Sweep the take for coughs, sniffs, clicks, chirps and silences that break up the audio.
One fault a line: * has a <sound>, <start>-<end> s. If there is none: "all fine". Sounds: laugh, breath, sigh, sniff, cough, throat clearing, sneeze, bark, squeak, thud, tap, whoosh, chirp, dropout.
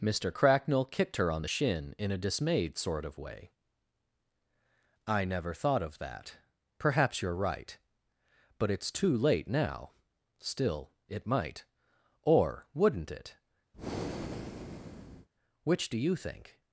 * has a breath, 13.7-15.3 s